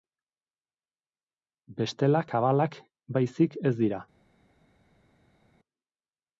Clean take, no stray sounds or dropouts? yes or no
yes